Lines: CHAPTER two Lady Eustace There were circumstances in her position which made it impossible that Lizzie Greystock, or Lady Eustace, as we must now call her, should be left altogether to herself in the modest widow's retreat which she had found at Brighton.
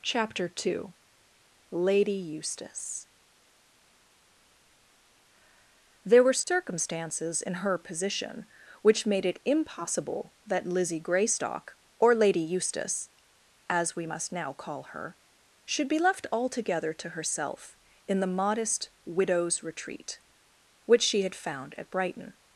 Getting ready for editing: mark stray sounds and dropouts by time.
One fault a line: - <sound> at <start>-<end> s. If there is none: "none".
none